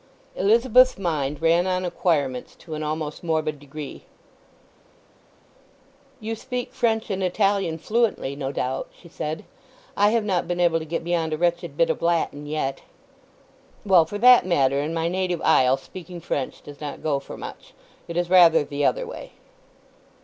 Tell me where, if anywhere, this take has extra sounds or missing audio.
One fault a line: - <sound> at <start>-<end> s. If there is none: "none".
none